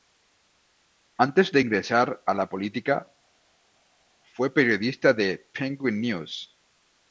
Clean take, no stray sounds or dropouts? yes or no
yes